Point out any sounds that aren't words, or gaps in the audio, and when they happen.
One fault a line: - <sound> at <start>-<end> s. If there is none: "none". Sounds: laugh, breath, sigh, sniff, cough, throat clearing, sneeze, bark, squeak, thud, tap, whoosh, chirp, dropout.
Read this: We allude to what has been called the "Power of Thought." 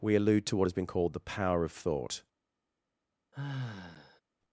- sigh at 3.3-4.2 s